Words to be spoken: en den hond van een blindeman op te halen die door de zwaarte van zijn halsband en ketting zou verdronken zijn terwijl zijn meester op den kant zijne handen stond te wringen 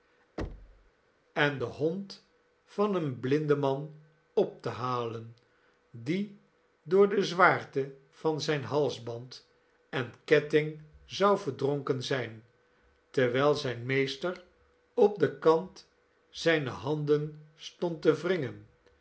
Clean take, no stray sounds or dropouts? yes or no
no